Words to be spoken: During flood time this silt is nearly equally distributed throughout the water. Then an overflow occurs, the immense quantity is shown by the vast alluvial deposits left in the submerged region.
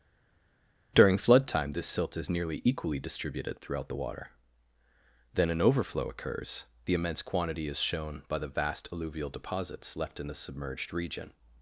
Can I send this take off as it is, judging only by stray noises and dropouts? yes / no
yes